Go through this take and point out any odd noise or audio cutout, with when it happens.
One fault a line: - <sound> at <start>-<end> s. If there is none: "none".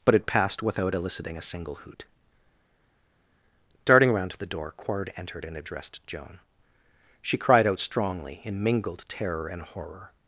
none